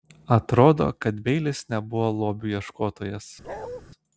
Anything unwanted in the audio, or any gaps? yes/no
yes